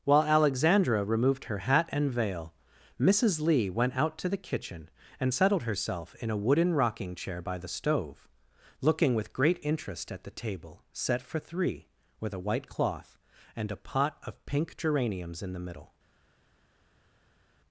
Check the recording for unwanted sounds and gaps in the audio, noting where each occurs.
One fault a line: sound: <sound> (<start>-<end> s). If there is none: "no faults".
no faults